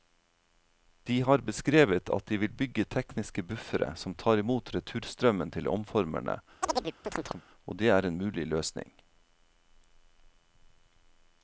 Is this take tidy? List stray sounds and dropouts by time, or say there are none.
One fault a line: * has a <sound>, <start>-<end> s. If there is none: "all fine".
* has a chirp, 6.6-7.4 s